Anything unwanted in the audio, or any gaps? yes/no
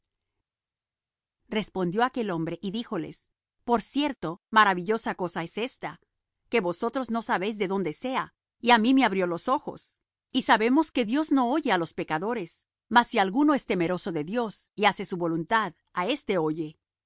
no